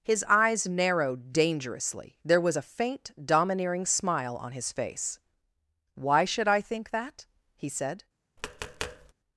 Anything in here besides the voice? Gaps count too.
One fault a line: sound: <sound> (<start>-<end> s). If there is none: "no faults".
sound: tap (8.4-9.1 s)